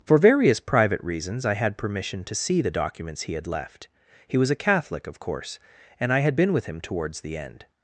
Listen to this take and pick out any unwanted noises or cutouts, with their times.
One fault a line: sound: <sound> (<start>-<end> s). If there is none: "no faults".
no faults